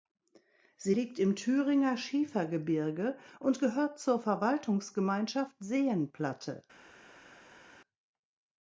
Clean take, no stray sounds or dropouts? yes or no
yes